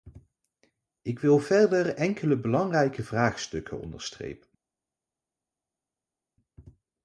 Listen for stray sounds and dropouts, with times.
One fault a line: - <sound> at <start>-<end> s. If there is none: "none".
none